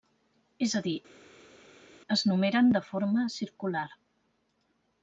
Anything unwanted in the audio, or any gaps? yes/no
no